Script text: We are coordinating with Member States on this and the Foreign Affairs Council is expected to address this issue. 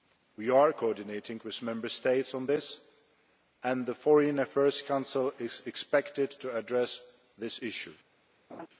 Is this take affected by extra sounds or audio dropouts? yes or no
yes